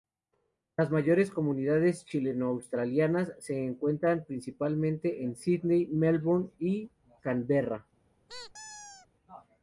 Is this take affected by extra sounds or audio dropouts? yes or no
yes